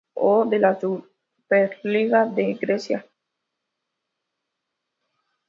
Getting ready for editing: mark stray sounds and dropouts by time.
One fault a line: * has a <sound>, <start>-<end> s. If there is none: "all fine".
all fine